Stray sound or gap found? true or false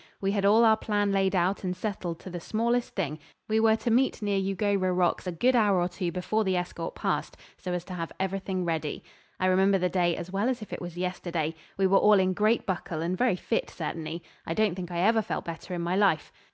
false